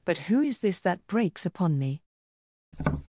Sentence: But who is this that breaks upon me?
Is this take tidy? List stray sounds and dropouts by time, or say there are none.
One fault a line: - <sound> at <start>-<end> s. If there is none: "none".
- tap at 2.7-3.1 s